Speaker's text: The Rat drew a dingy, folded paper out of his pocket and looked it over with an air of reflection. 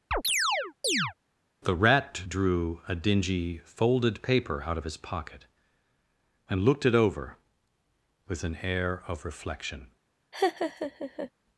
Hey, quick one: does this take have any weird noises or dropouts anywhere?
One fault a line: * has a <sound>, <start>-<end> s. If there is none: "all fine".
* has a chirp, 0.1-1.1 s
* has a laugh, 10.3-11.3 s